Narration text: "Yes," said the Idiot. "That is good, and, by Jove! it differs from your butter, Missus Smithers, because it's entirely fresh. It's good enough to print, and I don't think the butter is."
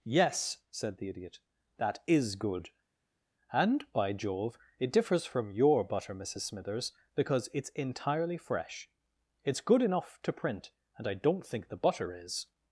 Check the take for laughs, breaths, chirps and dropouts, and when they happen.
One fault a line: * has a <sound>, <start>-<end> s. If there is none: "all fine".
all fine